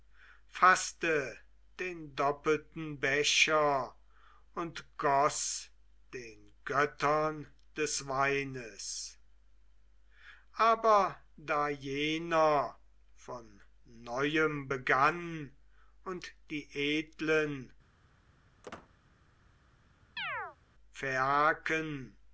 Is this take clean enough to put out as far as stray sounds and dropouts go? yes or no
no